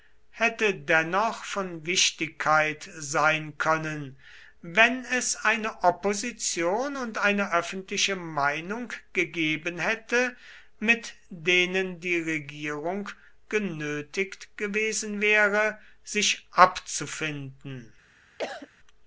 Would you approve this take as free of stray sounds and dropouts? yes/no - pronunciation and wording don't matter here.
no